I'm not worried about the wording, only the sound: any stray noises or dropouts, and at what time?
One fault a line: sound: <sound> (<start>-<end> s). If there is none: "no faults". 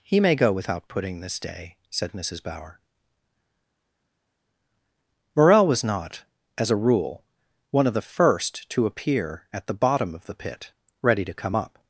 no faults